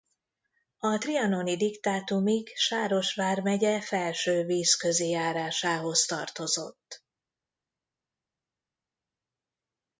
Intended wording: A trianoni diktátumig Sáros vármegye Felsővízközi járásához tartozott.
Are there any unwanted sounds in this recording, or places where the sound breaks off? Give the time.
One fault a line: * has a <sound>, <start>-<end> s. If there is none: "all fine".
all fine